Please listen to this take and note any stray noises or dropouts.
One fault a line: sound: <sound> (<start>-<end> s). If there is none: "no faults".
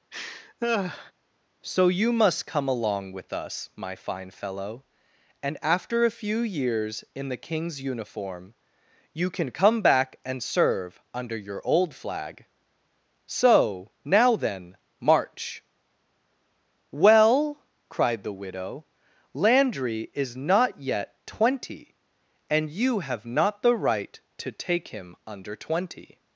sound: laugh (0.1-1.1 s)